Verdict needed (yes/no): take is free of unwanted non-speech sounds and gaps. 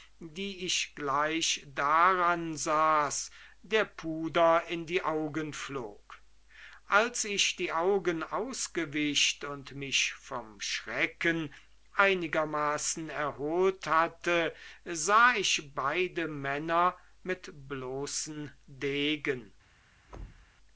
no